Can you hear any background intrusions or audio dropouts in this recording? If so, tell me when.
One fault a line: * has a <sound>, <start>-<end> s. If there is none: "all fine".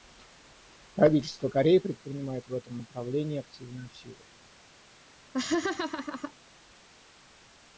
* has a laugh, 5.3-6.3 s